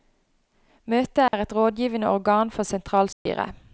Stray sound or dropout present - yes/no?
yes